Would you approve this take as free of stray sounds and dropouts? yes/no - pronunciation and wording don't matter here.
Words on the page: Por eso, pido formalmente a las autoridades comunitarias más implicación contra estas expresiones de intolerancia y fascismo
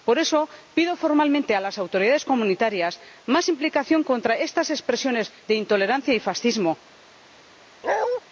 no